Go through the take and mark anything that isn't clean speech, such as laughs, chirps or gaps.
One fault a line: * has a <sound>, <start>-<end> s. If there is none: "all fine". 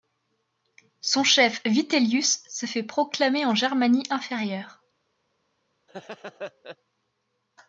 * has a laugh, 5.9-6.8 s